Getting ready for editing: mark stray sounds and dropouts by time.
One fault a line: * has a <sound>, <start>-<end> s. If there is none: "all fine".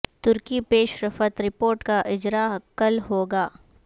all fine